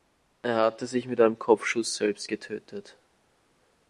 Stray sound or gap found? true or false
false